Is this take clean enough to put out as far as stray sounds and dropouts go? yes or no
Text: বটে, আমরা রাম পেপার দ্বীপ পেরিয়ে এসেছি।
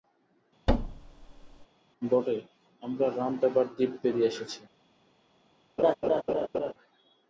no